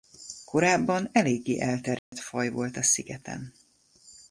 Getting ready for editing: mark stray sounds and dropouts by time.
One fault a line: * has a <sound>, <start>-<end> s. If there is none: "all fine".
* has a dropout, 2.0-2.1 s